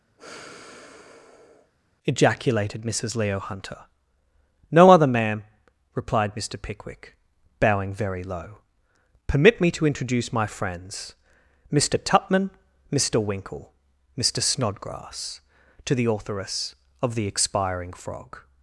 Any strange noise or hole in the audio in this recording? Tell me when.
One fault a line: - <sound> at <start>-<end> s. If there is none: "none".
- sigh at 0.2-1.7 s